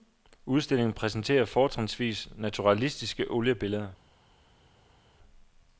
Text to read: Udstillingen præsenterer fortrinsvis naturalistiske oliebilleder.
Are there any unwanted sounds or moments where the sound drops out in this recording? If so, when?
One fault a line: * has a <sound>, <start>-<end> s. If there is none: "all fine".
all fine